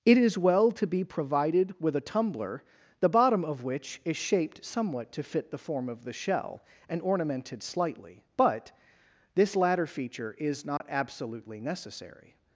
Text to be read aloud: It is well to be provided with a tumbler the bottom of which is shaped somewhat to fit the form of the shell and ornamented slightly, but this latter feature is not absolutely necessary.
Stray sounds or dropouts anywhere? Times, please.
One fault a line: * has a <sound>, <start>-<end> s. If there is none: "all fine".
* has a dropout, 10.8-10.8 s